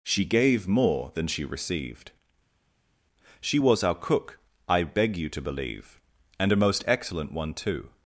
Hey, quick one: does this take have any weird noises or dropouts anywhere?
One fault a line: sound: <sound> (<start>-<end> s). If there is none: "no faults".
no faults